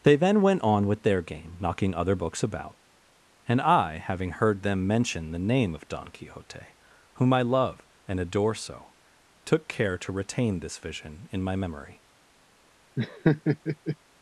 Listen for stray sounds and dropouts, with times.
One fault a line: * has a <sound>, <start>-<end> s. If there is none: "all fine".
* has a laugh, 13.0-14.0 s